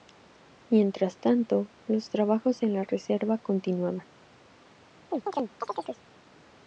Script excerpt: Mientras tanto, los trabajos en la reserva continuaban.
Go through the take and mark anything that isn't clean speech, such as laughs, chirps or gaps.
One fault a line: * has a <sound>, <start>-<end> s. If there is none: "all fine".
* has a chirp, 5.1-6.0 s